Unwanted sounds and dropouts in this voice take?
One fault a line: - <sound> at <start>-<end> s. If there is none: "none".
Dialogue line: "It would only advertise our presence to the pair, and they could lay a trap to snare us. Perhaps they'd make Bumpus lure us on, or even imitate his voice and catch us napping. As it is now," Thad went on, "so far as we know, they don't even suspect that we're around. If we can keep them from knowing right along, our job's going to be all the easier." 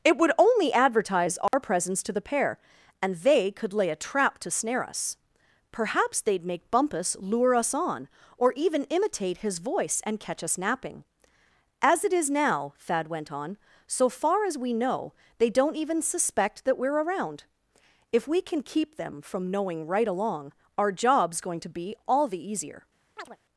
- dropout at 1.5-1.5 s
- chirp at 23.2-23.4 s